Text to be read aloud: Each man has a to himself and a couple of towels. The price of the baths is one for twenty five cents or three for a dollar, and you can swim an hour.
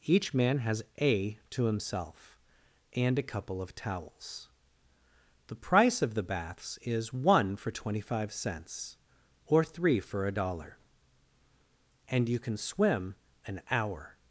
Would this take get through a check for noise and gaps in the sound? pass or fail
pass